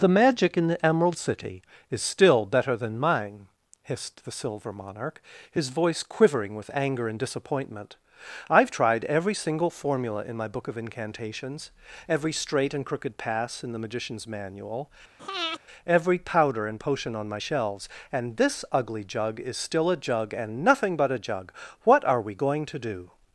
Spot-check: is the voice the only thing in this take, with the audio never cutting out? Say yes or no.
no